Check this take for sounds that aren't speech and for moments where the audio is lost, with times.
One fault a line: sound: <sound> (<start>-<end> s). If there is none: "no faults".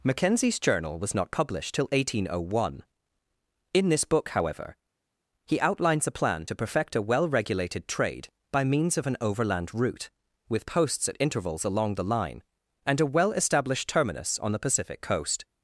no faults